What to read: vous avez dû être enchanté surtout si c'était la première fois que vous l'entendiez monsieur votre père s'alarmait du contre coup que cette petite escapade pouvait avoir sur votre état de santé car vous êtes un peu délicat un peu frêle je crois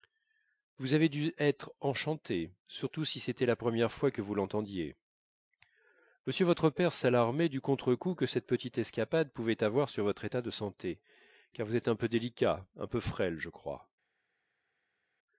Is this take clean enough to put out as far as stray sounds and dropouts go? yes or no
yes